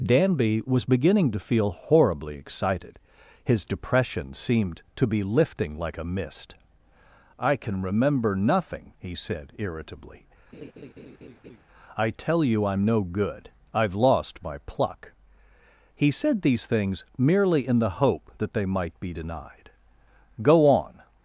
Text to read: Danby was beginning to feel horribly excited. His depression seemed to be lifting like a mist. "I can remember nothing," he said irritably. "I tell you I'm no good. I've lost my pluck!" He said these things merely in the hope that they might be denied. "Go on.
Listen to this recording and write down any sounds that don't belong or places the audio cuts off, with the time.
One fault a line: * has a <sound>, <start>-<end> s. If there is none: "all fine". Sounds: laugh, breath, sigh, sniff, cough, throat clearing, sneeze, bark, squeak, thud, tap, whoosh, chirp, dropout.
* has a laugh, 10.5-11.6 s